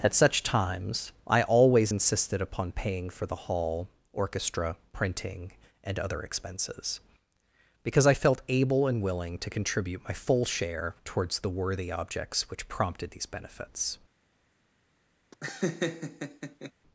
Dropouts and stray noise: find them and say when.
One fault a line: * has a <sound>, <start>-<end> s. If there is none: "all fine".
* has a laugh, 15.3-16.7 s